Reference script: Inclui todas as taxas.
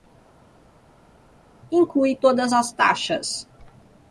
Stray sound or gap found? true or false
false